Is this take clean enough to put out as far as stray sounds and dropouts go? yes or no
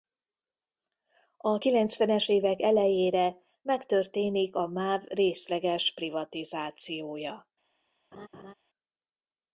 no